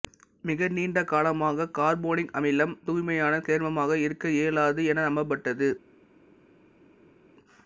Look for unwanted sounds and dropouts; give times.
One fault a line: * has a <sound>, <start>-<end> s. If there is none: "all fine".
all fine